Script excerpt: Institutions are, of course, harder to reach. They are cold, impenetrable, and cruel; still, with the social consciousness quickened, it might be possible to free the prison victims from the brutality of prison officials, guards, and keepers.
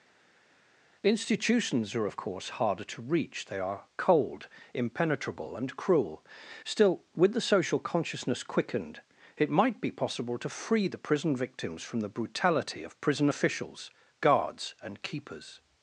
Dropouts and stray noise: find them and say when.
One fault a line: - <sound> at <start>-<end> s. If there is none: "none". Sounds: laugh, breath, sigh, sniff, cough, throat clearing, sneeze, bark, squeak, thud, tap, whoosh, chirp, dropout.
none